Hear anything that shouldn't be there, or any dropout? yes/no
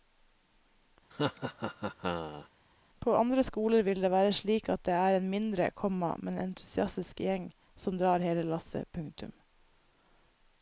yes